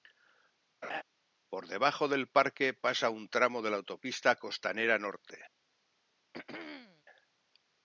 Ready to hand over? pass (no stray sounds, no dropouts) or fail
fail